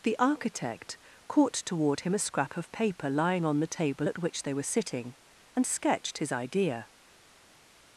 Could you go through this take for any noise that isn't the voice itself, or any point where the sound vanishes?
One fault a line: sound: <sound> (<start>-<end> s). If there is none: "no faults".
no faults